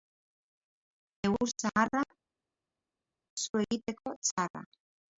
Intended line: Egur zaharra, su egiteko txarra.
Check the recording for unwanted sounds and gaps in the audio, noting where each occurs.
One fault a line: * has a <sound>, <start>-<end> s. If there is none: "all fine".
all fine